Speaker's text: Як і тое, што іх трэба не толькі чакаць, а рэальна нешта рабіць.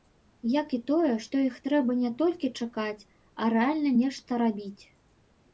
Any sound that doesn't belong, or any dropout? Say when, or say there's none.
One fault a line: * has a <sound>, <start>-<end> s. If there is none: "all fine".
all fine